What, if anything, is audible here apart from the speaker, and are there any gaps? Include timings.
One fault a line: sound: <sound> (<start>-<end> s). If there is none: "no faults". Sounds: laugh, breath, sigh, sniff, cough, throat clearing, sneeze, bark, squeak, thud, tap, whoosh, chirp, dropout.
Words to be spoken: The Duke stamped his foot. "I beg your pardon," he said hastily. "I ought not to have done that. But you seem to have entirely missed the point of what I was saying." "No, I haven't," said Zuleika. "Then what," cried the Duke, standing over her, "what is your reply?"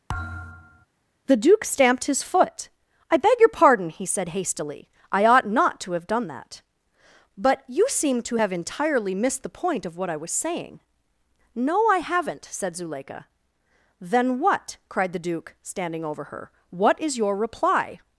sound: thud (0.1-0.9 s)